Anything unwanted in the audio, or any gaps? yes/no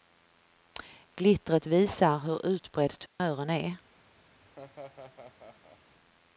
yes